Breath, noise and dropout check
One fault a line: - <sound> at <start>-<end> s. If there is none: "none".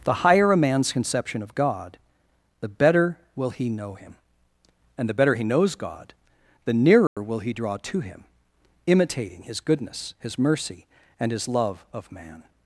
- dropout at 7.1-7.2 s